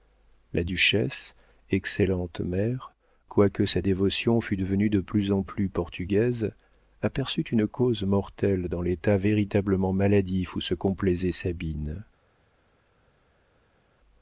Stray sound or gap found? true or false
false